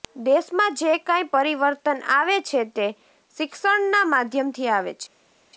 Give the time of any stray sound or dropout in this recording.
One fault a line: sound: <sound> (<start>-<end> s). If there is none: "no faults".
no faults